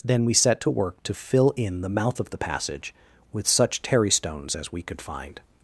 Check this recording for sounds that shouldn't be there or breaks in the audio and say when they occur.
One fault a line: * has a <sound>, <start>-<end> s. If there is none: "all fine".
all fine